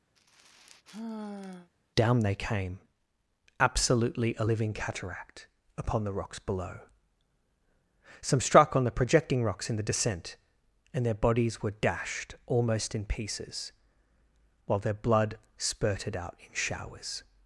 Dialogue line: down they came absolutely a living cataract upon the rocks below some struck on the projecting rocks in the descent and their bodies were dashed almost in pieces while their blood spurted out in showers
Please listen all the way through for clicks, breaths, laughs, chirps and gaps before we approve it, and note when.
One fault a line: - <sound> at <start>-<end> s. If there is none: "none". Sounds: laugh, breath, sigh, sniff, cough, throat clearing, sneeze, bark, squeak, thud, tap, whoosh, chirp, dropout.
- sigh at 0.2-1.7 s